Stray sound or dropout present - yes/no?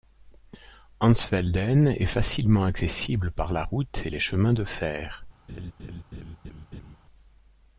yes